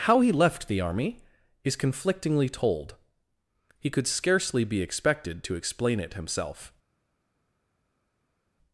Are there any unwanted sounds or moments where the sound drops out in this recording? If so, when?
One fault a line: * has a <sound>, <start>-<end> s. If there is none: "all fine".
all fine